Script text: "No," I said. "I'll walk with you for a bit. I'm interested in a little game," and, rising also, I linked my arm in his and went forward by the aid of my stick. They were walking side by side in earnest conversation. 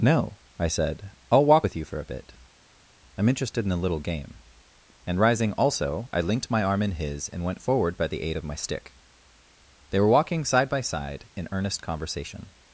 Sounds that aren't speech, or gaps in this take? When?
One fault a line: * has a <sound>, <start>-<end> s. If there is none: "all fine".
all fine